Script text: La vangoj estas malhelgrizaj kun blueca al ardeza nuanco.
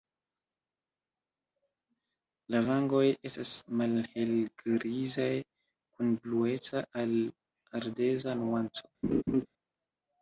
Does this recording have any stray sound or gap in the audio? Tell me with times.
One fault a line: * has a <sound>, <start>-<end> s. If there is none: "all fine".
* has a laugh, 9.0-9.5 s